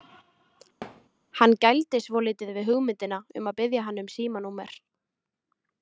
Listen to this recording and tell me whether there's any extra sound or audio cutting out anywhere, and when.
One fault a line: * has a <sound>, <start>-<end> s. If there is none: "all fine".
* has a thud, 0.8-1.1 s